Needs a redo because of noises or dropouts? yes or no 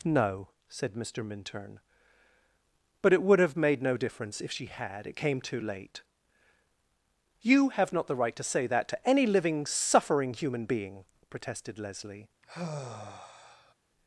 yes